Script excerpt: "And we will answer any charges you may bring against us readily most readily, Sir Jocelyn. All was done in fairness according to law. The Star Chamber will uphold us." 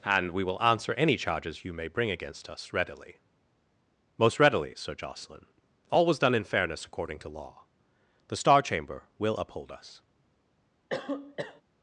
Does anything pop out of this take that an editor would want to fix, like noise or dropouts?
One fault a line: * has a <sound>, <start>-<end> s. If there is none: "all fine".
* has a cough, 10.9-11.6 s